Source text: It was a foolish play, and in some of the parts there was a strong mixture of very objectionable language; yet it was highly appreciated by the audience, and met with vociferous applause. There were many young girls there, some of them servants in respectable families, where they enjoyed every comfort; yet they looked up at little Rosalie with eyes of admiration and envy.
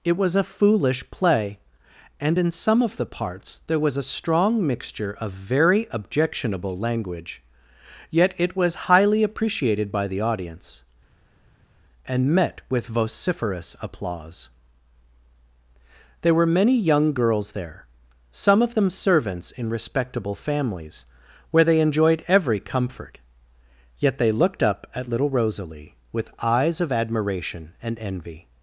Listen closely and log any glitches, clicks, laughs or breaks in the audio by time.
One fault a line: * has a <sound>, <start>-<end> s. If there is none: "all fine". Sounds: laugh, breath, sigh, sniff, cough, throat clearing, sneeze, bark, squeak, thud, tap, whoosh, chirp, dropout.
all fine